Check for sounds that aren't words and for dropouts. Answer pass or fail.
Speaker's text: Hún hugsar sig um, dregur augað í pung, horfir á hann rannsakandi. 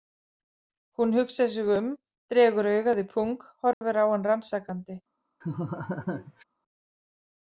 fail